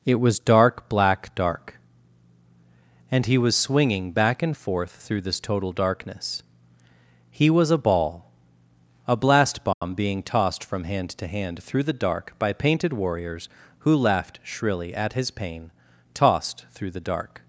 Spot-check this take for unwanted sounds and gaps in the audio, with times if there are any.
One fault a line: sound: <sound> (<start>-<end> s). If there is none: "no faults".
sound: dropout (9.7-9.8 s)